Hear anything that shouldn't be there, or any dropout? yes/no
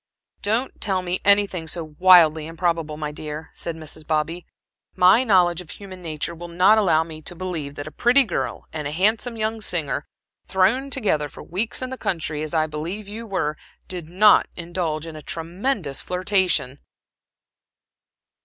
no